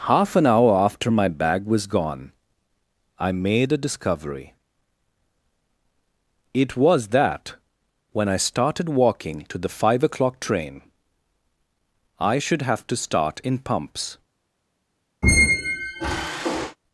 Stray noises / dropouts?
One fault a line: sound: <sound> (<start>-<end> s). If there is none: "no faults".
sound: squeak (15.2-16.8 s)